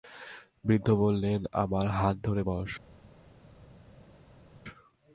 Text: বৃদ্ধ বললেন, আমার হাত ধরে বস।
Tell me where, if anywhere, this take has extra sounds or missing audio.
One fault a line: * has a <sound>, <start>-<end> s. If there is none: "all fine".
all fine